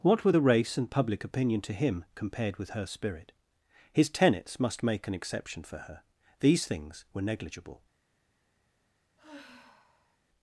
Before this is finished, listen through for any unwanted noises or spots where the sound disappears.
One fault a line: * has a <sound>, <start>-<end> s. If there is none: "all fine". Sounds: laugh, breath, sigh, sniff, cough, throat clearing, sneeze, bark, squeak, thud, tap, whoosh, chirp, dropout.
* has a sigh, 9.2-10.2 s